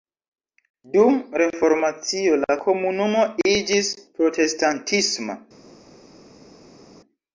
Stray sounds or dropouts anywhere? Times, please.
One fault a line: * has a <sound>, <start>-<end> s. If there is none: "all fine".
all fine